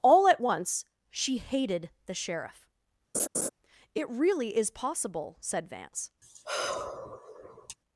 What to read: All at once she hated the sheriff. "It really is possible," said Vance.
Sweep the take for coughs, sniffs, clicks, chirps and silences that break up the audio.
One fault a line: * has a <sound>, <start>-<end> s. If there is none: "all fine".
* has a laugh, 3.1-3.5 s
* has a sigh, 6.2-7.8 s